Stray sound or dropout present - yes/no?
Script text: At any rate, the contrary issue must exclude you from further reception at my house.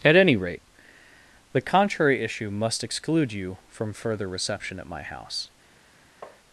yes